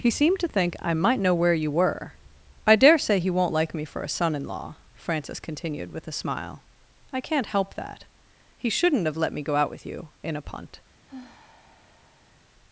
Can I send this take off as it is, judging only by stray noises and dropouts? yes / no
no